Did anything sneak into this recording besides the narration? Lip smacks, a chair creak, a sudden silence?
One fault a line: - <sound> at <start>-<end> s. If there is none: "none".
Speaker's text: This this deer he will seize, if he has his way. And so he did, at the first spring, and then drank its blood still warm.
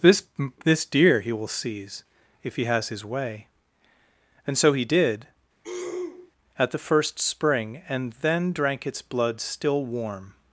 - throat clearing at 5.6-6.3 s